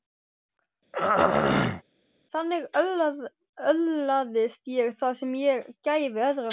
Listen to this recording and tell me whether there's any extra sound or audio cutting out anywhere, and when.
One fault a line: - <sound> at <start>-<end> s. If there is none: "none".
- throat clearing at 0.9-1.8 s